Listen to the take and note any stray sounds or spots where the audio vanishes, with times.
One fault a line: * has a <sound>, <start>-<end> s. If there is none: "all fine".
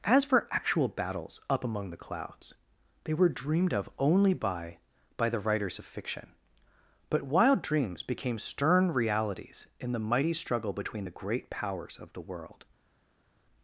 all fine